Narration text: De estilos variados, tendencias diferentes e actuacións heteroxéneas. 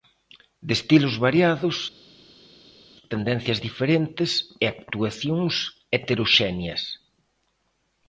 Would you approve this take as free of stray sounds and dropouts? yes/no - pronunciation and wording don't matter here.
yes